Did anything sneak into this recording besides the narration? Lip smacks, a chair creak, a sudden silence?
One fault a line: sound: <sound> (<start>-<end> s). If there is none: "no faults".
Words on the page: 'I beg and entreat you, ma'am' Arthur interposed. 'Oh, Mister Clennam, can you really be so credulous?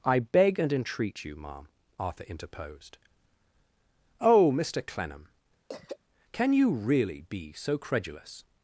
sound: throat clearing (5.7-6.0 s)